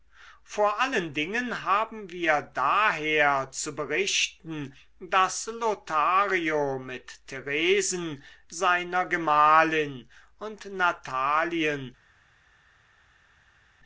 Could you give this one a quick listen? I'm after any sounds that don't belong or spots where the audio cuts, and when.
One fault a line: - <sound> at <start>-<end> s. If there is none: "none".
none